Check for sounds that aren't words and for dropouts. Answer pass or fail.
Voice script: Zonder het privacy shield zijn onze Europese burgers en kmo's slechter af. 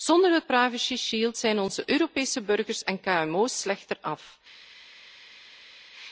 pass